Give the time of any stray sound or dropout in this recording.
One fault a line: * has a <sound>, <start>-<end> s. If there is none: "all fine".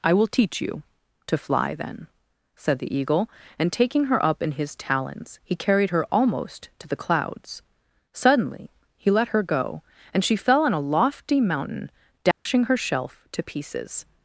* has a dropout, 12.3-12.5 s